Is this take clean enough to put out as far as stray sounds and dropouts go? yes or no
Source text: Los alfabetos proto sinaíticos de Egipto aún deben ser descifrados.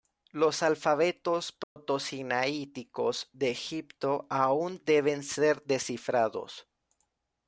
no